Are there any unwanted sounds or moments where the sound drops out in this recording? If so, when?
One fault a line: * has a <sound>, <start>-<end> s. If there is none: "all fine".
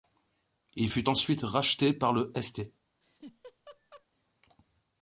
* has a laugh, 3.0-4.1 s